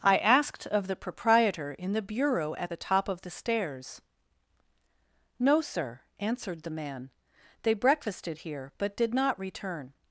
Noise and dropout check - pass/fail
pass